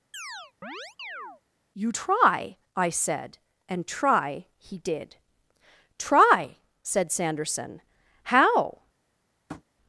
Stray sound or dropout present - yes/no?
yes